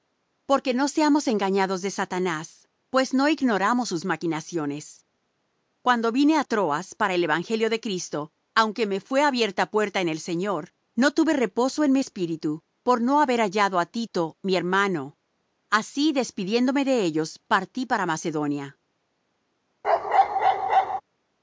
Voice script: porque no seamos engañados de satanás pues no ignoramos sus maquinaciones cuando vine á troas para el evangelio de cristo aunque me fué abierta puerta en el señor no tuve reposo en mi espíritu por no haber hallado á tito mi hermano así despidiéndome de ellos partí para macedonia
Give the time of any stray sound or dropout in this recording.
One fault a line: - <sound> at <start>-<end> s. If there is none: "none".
- bark at 19.8-21.0 s